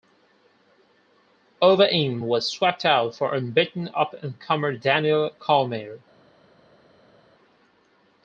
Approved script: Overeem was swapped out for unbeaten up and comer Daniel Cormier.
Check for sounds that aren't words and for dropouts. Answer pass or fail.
pass